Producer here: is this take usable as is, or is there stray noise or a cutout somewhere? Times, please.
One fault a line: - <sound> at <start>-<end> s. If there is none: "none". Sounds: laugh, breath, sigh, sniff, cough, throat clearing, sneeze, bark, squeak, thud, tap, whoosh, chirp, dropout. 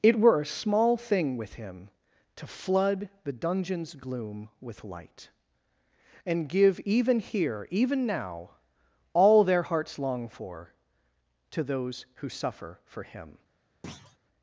- thud at 13.8-14.2 s